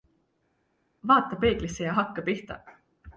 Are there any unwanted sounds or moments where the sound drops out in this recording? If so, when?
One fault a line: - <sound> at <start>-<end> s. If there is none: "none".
none